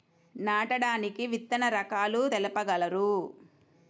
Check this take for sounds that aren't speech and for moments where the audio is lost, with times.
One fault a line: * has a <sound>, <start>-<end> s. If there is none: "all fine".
all fine